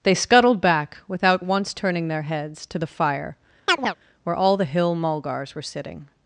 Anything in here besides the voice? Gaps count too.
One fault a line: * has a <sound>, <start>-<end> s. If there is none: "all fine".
* has a chirp, 3.7-4.0 s